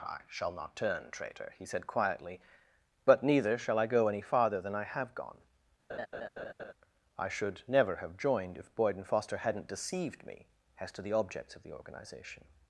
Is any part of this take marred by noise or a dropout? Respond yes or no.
yes